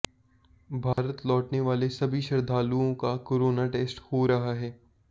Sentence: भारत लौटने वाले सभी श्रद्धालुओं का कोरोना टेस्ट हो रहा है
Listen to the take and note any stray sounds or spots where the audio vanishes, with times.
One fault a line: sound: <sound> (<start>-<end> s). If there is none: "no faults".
sound: dropout (0.9-1.0 s)